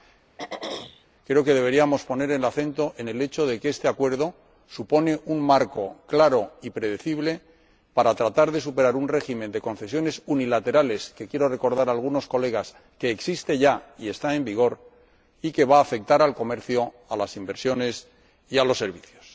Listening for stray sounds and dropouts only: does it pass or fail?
fail